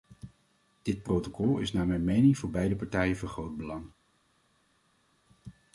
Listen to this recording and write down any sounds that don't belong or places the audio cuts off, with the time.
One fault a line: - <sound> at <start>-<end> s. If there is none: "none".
none